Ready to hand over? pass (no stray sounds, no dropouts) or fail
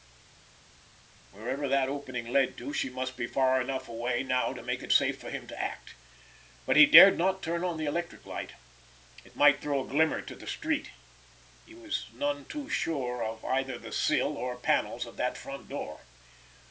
pass